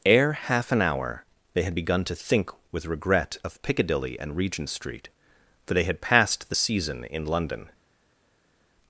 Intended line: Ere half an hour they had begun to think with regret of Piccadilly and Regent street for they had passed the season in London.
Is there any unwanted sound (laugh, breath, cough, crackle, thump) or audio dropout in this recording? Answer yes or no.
no